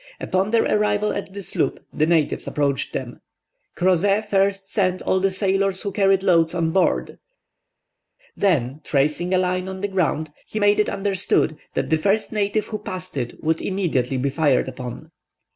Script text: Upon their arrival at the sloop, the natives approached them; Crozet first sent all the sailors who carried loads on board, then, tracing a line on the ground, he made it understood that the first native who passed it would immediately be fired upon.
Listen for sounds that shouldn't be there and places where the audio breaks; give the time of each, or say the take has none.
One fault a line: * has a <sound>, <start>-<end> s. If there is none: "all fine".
all fine